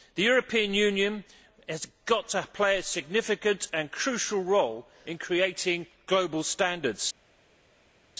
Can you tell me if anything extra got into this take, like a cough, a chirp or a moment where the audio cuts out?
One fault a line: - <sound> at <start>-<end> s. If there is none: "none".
none